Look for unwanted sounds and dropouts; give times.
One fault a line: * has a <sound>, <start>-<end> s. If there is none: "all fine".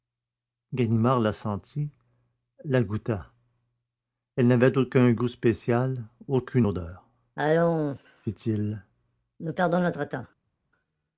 all fine